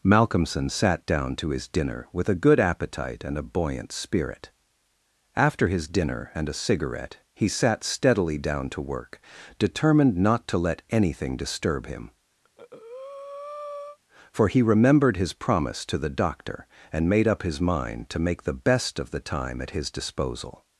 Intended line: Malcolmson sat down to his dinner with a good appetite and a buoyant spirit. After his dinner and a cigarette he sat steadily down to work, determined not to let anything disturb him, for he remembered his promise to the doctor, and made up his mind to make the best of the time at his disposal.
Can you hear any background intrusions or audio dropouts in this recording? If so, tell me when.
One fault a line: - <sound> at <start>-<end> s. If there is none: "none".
- breath at 12.4-14.0 s